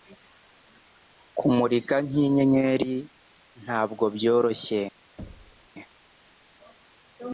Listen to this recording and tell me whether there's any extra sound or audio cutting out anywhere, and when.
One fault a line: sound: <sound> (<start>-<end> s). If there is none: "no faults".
sound: thud (5.2-5.7 s)